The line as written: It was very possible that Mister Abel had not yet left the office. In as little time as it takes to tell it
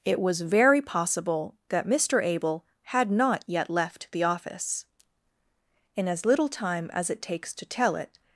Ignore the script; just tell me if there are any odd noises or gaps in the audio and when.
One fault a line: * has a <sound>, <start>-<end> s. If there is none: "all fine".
all fine